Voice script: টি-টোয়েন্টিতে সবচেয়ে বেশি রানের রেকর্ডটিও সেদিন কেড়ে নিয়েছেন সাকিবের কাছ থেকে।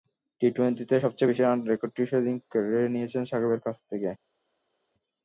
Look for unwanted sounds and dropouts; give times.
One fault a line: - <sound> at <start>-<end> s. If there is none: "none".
none